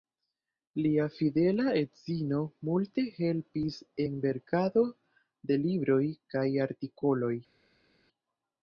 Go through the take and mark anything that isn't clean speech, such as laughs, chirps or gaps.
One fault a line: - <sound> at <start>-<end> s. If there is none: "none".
none